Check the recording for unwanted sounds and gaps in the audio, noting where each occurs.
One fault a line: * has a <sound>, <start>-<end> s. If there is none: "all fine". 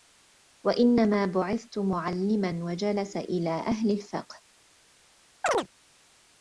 * has a chirp, 5.4-5.7 s